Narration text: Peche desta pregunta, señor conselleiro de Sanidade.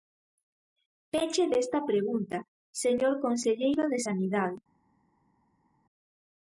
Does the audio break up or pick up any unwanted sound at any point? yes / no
no